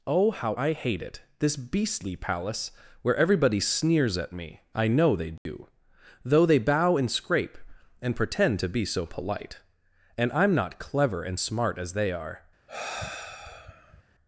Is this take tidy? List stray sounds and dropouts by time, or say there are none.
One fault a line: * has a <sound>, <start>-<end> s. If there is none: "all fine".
* has a dropout, 5.4-5.5 s
* has a sigh, 12.7-14.0 s